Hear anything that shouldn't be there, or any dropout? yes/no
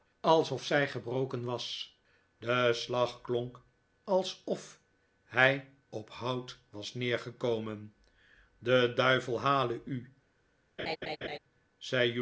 yes